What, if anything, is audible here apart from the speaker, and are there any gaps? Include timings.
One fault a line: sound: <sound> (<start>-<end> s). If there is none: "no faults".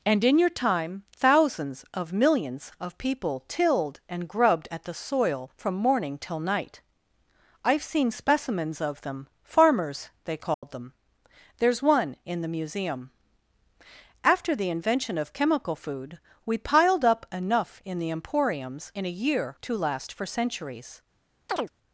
sound: dropout (10.5-10.6 s)
sound: chirp (21.5-21.7 s)